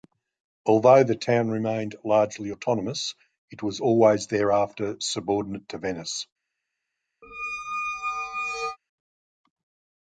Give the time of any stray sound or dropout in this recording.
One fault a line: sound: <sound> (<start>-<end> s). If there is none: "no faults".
sound: squeak (7.2-8.8 s)